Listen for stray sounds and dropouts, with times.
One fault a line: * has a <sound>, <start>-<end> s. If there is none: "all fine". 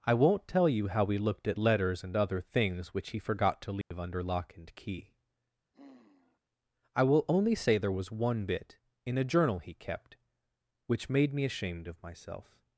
* has a dropout, 3.8-3.9 s
* has a sigh, 5.7-6.4 s